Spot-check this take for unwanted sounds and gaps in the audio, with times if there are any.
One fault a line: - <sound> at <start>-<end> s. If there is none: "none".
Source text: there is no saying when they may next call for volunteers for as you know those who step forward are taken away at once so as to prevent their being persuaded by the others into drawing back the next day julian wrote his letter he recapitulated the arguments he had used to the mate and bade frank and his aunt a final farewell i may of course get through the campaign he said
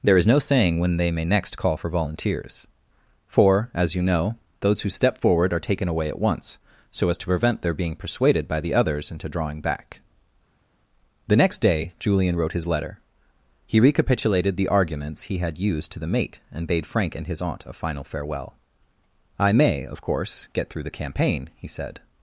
none